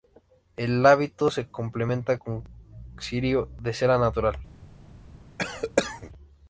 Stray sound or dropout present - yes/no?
yes